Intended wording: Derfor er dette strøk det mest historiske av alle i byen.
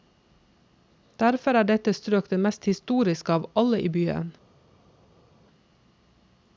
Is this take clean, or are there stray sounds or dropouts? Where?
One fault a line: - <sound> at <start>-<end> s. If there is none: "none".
none